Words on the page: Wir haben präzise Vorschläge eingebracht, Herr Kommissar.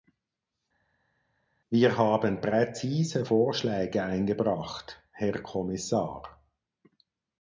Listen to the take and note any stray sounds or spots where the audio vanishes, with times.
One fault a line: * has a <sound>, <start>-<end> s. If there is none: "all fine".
all fine